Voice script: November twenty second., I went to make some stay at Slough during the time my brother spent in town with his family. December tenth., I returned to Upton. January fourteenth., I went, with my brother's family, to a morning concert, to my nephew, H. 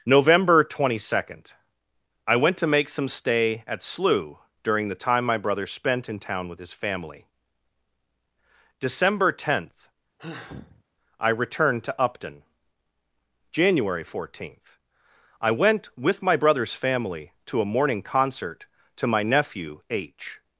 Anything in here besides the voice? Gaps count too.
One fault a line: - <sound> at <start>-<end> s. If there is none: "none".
- sigh at 10.2-10.8 s